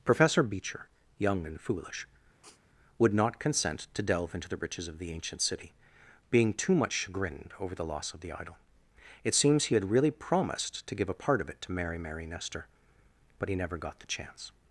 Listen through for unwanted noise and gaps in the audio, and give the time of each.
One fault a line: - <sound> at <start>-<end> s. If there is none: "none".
- sniff at 2.4-2.6 s